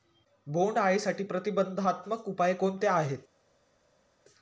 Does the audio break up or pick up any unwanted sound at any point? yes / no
no